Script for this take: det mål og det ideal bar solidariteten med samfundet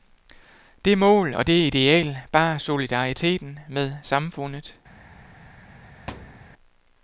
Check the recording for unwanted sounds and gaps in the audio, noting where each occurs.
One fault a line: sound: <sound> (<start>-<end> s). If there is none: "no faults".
sound: thud (6.1-6.5 s)